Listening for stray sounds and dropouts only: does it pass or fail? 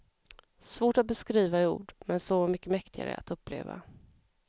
pass